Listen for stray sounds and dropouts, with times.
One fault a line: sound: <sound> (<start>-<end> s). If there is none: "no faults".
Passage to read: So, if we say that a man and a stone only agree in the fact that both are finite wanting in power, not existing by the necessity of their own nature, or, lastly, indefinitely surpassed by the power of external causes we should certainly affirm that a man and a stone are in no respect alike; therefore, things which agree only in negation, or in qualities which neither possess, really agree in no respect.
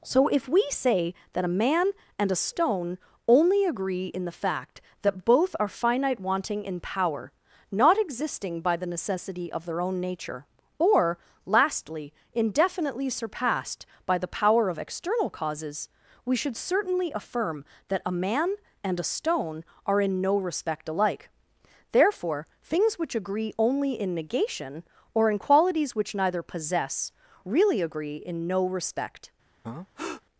sound: breath (29.6-30.2 s)